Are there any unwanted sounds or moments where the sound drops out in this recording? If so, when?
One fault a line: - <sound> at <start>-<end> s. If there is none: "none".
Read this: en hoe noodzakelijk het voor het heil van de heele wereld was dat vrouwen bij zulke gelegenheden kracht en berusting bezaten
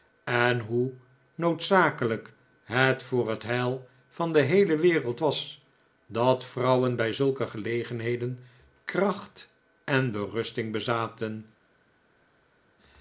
none